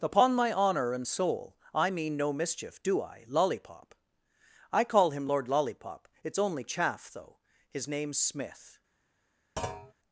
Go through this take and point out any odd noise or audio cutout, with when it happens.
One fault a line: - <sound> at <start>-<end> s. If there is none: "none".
- thud at 9.6-9.9 s